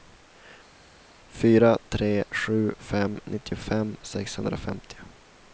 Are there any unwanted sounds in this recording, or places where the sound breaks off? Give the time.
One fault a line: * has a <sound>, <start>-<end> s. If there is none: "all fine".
all fine